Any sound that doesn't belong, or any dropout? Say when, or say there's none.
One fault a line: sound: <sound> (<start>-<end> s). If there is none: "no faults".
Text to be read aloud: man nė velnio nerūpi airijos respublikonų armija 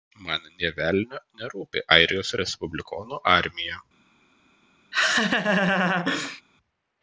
sound: laugh (4.9-6.4 s)